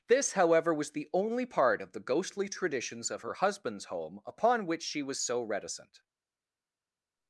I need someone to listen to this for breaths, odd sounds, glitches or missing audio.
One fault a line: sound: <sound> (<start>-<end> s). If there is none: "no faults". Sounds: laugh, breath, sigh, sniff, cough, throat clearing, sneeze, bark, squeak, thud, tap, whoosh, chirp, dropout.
no faults